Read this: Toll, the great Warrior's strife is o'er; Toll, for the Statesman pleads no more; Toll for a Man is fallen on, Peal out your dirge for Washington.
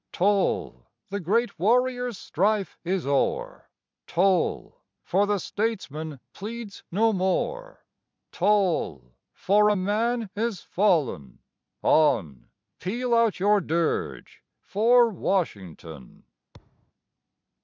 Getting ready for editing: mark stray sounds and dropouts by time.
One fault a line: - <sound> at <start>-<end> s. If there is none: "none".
- thud at 16.5-16.9 s